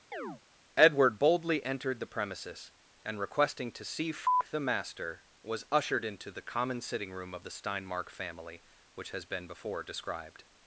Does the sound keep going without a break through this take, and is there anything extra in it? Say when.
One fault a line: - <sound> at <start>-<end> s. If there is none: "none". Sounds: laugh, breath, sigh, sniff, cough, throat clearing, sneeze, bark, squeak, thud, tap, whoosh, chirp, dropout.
- chirp at 0.1-0.4 s